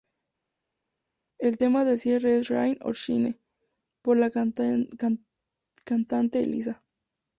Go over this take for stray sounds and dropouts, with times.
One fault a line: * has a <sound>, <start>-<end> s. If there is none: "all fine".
all fine